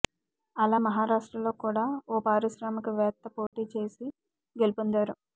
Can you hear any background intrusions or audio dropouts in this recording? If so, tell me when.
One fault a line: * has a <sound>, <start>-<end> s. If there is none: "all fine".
* has a dropout, 3.5-3.5 s